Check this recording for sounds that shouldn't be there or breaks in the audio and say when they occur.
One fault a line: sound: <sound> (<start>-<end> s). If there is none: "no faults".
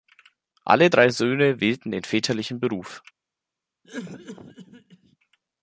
sound: cough (3.8-5.2 s)